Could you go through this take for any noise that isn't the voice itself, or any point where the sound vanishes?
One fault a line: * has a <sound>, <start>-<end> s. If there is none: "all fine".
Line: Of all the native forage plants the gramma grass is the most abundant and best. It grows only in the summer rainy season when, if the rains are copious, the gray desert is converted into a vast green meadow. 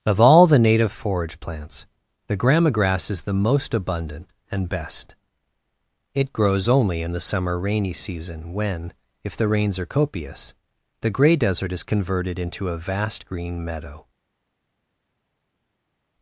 all fine